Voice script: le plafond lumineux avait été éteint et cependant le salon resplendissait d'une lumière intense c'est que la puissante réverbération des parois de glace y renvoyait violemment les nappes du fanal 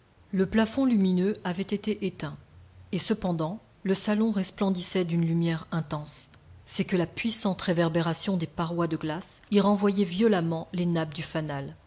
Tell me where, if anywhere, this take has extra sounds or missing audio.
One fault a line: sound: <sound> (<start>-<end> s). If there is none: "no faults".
no faults